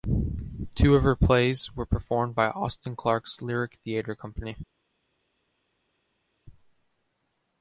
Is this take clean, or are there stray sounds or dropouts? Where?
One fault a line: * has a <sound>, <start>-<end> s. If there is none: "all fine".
all fine